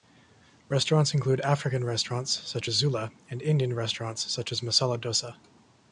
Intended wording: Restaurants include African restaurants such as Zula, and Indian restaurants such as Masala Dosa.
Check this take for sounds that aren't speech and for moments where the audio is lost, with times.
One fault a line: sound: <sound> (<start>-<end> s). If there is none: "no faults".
no faults